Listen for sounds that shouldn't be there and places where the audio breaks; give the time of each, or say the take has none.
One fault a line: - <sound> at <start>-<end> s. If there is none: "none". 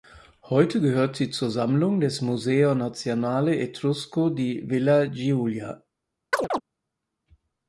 - chirp at 6.3-6.6 s